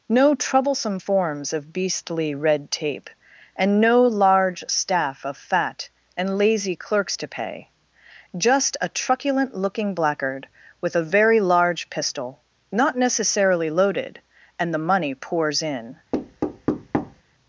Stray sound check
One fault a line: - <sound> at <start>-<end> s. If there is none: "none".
- thud at 16.1-17.2 s